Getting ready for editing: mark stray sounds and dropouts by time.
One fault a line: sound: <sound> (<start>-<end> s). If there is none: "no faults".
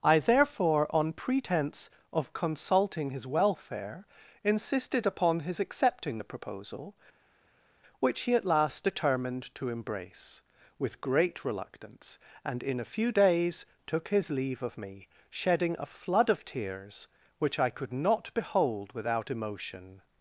no faults